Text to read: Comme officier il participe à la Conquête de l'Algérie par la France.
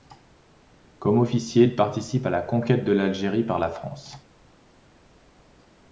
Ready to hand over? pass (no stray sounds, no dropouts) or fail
pass